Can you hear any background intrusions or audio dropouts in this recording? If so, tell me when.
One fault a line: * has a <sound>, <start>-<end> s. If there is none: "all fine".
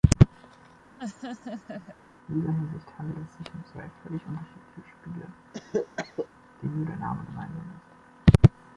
* has a laugh, 1.0-2.0 s
* has a cough, 5.5-6.3 s